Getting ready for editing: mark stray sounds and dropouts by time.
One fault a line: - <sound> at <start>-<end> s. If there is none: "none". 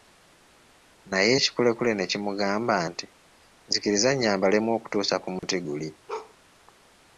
- dropout at 5.4-5.4 s
- bark at 6.1-6.3 s